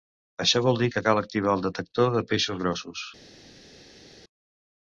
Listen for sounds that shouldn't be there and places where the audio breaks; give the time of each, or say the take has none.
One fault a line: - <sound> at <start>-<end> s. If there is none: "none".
none